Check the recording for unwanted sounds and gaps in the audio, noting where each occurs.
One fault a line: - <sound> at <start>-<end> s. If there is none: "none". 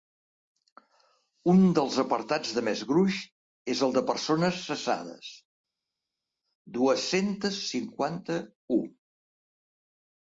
none